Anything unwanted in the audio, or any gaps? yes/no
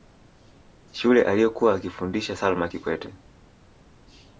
no